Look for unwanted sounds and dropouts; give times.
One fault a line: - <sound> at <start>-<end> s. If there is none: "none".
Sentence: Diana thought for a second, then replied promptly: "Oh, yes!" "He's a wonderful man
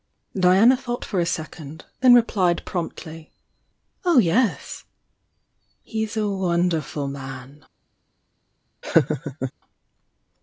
- laugh at 8.8-9.5 s